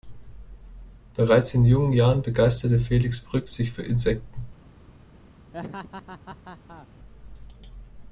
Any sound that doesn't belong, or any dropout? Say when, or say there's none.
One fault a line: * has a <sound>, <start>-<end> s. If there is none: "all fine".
* has a laugh, 5.5-6.9 s